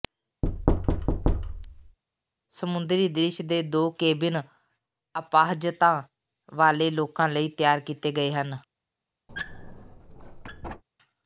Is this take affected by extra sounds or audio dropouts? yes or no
yes